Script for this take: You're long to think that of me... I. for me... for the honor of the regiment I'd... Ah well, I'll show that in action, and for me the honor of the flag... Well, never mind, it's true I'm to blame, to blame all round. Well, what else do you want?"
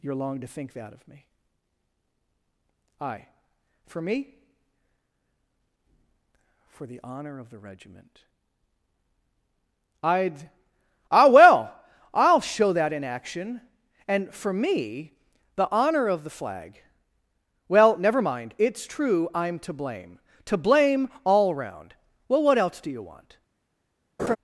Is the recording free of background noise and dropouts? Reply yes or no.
no